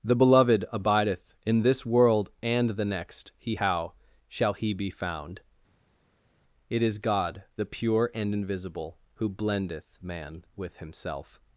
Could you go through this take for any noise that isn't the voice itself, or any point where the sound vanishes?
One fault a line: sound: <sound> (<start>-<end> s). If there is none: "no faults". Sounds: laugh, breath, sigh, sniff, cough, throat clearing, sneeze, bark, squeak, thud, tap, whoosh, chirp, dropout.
no faults